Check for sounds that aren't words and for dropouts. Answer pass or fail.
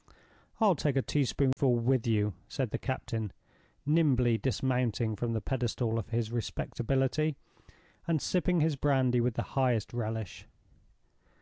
fail